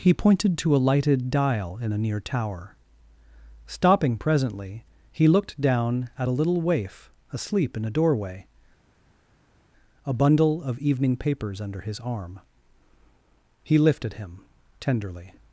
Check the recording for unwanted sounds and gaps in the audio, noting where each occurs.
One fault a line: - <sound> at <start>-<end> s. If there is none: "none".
none